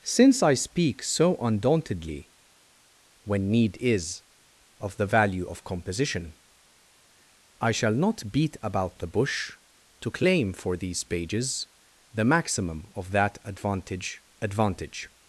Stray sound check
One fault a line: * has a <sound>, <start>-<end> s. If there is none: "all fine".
all fine